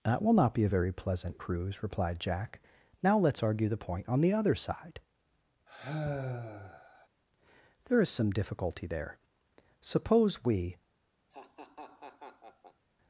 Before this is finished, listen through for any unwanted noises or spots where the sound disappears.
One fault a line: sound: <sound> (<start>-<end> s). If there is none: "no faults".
sound: sigh (5.7-7.1 s)
sound: laugh (11.3-12.9 s)